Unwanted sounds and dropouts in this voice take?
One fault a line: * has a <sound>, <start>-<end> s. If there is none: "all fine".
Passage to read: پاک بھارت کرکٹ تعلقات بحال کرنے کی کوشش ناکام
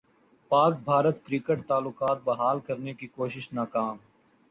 all fine